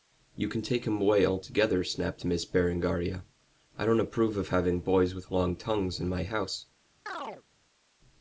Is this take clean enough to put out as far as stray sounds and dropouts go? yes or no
no